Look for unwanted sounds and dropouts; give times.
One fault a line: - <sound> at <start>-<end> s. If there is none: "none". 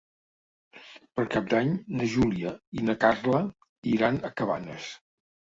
none